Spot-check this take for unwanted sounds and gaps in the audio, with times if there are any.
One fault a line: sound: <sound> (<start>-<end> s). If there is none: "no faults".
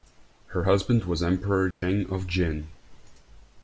sound: dropout (1.7-1.8 s)